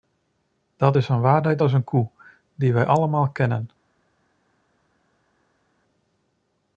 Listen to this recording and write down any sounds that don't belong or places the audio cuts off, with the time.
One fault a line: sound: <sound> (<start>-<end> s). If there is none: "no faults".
no faults